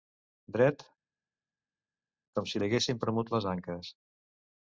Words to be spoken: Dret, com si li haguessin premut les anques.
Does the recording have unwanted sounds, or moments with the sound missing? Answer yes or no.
no